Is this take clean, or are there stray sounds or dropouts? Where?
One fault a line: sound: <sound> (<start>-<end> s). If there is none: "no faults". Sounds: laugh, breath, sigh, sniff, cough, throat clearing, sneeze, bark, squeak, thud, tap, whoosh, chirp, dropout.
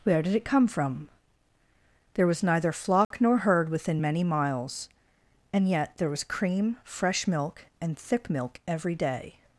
sound: dropout (3.0-3.1 s)